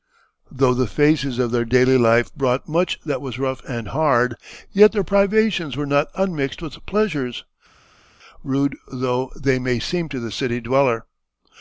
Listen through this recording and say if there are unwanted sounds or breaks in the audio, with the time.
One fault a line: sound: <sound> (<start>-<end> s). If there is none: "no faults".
no faults